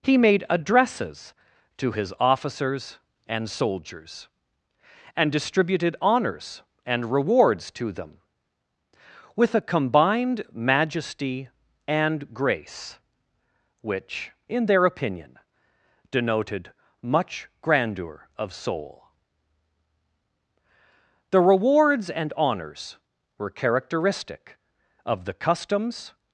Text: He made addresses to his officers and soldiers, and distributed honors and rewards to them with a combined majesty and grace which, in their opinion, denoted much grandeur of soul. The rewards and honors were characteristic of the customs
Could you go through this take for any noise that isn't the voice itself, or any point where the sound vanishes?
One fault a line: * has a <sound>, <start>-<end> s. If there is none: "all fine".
all fine